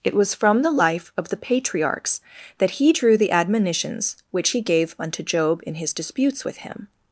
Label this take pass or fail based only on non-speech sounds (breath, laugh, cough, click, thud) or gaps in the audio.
pass